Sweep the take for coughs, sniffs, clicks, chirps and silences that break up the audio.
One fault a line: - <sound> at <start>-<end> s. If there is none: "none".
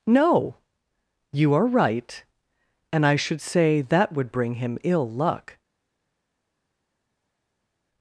none